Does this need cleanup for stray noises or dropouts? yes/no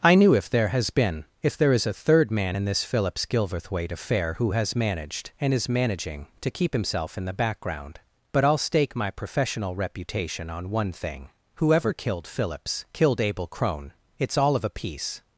no